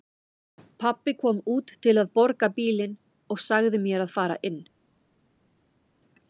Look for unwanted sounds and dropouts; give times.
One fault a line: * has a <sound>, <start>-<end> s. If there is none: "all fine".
all fine